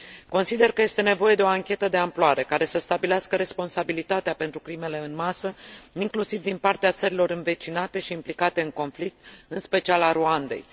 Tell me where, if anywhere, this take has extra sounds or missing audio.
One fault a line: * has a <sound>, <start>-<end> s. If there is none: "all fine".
all fine